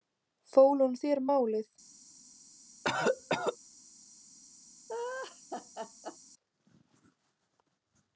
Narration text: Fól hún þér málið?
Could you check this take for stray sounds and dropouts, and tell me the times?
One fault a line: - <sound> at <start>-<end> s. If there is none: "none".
- cough at 2.8-3.6 s
- laugh at 4.9-6.2 s